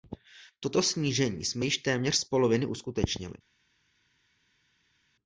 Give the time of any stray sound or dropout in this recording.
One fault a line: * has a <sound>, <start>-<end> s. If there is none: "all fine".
all fine